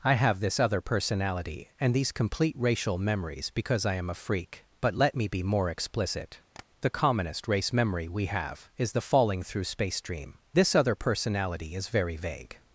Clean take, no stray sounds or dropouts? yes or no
no